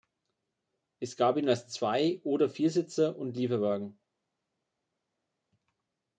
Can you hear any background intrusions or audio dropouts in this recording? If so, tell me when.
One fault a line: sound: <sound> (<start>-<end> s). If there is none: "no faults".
no faults